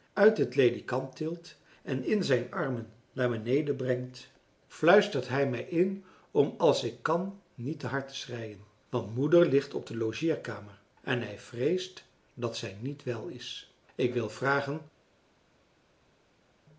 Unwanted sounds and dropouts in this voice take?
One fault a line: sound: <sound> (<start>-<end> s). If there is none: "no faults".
no faults